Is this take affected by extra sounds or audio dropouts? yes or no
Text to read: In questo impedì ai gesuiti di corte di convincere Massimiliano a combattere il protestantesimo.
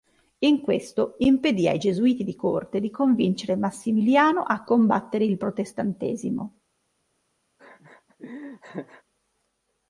yes